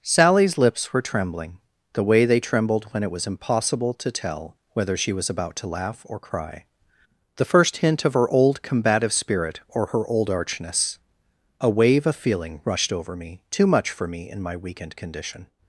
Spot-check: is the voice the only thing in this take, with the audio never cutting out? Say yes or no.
yes